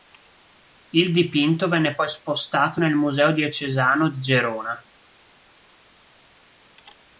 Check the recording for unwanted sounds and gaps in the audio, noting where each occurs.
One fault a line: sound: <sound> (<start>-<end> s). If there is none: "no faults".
no faults